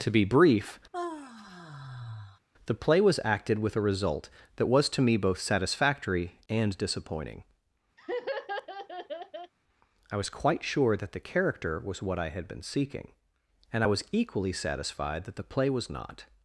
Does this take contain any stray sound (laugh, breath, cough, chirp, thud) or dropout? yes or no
yes